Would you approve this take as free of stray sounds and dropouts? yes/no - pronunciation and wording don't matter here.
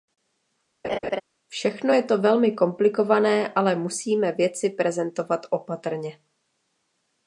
no